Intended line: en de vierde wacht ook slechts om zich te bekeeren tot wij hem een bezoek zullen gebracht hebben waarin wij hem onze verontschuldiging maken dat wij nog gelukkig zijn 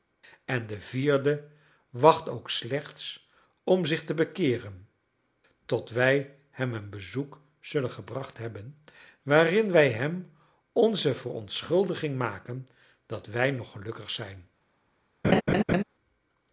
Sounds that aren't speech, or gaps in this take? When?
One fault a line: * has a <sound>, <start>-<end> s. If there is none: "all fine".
* has a laugh, 15.2-15.8 s